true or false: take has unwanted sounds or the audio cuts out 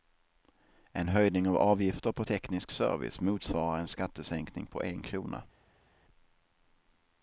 false